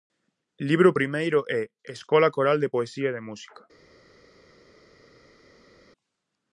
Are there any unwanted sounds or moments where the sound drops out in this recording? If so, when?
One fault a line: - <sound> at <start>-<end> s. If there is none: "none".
none